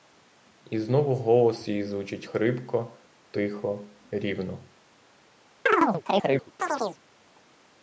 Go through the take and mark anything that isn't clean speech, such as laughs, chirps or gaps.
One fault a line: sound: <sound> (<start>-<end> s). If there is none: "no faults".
sound: chirp (5.7-7.0 s)